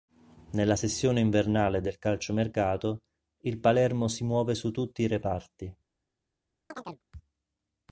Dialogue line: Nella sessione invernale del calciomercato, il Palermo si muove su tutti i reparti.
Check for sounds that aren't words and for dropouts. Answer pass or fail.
fail